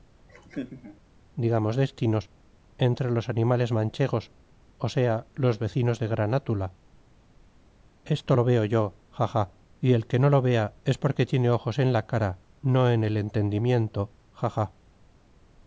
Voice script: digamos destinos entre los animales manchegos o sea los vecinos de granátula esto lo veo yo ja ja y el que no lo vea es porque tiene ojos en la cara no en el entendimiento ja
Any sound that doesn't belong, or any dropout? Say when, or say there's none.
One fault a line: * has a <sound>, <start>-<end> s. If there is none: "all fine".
* has a laugh, 0.3-1.0 s